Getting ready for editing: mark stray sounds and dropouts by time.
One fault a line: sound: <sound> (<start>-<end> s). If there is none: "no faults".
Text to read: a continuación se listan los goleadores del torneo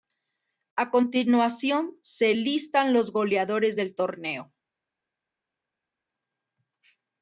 no faults